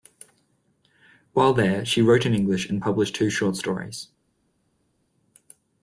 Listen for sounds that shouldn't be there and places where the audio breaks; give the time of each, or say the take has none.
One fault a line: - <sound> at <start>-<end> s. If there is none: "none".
none